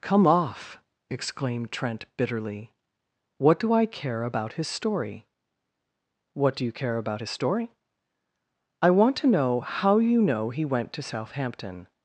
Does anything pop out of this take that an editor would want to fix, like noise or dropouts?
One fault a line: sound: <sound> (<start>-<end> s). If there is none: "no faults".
no faults